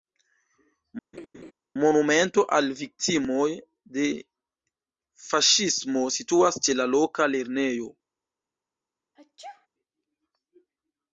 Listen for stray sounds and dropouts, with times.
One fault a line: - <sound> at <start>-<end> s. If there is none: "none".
- laugh at 1.1-1.5 s
- sneeze at 9.2-9.7 s